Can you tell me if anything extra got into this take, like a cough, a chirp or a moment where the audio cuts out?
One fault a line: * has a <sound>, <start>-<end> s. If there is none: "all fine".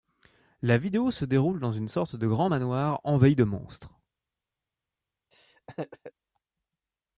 * has a laugh, 5.3-6.1 s